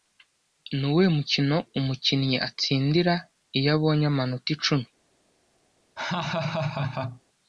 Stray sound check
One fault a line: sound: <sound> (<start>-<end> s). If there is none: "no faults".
sound: laugh (6.0-7.2 s)